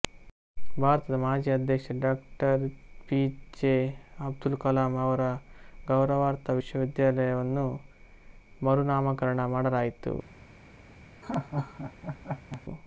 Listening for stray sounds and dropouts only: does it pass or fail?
fail